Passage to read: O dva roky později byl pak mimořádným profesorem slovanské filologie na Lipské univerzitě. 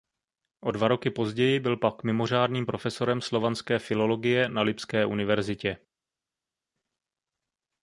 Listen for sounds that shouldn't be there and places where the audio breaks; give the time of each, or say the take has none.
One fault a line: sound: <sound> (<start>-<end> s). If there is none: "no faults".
no faults